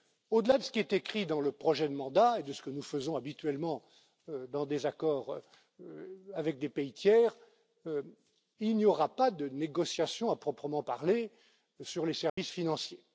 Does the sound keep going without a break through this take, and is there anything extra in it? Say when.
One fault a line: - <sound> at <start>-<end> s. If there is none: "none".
- dropout at 12.3-12.4 s